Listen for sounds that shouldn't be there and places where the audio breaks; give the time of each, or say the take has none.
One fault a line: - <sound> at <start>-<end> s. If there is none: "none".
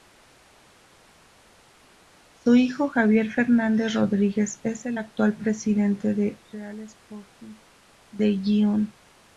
none